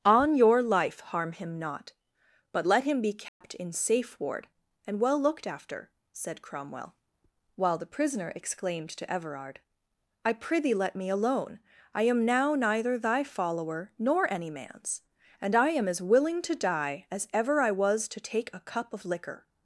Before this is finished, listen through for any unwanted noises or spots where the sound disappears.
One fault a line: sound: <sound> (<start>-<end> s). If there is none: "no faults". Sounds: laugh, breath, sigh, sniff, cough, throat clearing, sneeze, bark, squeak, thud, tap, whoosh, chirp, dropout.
sound: dropout (3.3-3.4 s)